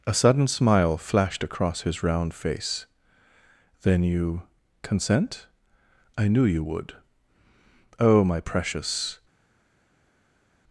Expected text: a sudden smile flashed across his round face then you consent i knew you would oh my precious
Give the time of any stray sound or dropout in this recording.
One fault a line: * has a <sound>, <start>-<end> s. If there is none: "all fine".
all fine